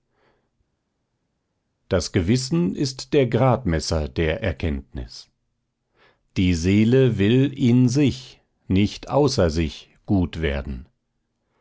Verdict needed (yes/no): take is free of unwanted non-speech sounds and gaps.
yes